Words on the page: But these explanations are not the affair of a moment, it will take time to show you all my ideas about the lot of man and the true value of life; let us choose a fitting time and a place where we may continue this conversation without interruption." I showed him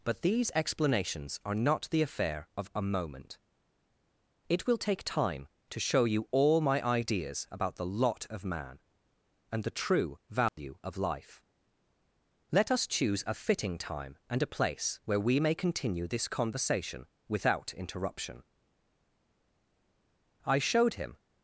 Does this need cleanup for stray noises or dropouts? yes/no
yes